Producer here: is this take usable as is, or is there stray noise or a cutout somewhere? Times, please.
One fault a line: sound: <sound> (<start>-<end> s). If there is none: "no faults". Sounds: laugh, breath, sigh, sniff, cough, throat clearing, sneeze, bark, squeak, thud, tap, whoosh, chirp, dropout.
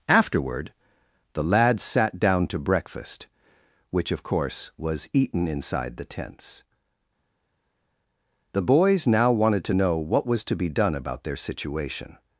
no faults